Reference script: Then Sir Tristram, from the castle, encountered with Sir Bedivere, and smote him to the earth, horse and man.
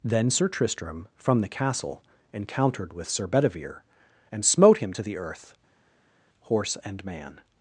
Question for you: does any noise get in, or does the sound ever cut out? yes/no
no